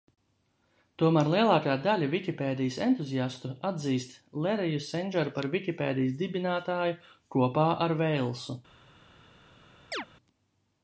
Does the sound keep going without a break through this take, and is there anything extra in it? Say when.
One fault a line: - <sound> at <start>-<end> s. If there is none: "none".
- chirp at 9.9-10.1 s